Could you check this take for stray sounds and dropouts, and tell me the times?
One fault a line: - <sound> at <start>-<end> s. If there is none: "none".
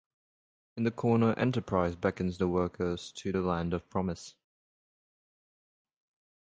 none